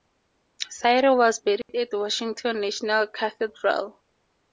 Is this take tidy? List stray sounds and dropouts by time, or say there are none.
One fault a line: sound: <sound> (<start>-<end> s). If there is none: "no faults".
sound: dropout (1.6-1.7 s)